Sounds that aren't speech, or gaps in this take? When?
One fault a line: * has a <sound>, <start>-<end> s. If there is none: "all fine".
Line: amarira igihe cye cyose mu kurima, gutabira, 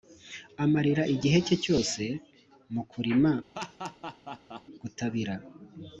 * has a laugh, 3.6-4.6 s